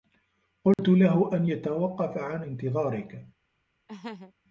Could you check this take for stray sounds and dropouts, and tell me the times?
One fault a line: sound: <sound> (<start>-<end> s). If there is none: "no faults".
sound: dropout (0.7-0.8 s)
sound: laugh (3.9-4.3 s)